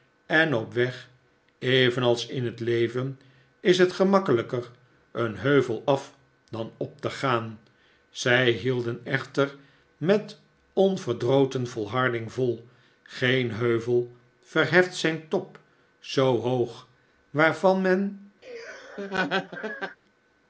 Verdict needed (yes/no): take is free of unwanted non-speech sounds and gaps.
no